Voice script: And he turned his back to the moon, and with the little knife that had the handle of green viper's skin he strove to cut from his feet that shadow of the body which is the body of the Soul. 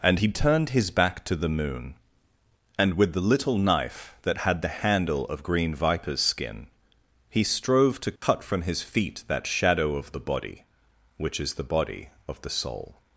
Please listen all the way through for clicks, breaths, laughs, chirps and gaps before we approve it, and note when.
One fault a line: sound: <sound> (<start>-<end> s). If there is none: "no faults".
sound: dropout (8.2-8.2 s)